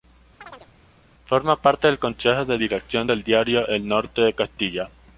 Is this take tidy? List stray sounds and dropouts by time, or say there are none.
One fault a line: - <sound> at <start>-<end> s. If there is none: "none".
- chirp at 0.4-0.7 s